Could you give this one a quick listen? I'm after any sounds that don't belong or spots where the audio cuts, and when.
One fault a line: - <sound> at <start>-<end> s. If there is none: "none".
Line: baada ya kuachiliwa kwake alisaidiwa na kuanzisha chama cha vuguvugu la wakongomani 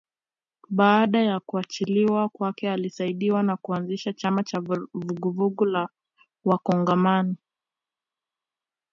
none